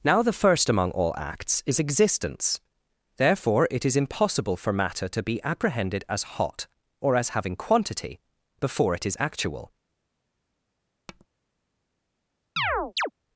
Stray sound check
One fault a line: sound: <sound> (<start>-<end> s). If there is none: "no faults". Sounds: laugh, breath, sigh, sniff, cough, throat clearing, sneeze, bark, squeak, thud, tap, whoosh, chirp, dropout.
sound: tap (11.1-11.3 s)
sound: chirp (12.6-13.1 s)